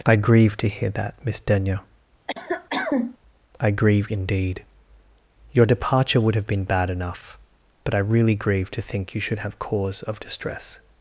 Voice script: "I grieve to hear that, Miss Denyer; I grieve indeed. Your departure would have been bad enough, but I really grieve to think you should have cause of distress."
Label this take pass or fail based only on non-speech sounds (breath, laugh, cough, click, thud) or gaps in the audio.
fail